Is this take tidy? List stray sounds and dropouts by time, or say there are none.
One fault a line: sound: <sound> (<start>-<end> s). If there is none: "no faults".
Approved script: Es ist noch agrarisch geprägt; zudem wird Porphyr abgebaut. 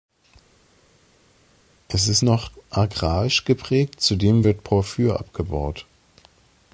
no faults